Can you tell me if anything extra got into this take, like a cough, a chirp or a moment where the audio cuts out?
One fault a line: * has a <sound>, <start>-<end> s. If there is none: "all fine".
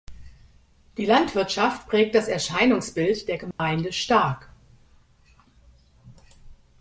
* has a dropout, 3.5-3.6 s